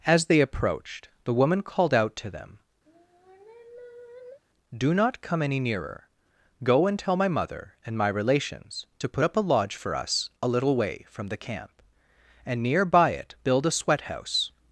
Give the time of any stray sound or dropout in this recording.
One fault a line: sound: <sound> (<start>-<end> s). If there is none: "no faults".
sound: sigh (2.9-4.4 s)